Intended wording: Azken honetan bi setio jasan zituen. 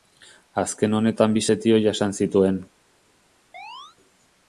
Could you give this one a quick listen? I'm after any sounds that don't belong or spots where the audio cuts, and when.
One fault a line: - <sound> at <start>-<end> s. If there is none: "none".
- chirp at 3.5-4.0 s